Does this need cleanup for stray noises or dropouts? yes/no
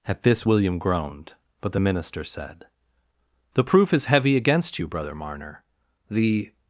no